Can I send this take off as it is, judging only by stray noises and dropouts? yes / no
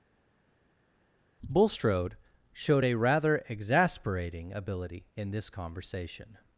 yes